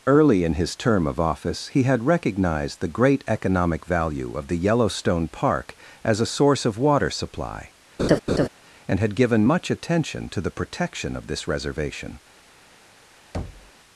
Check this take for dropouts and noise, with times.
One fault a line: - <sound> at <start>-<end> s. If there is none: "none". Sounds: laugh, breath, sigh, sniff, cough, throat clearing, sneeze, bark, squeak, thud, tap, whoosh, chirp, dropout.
- laugh at 8.0-8.5 s
- thud at 13.3-13.7 s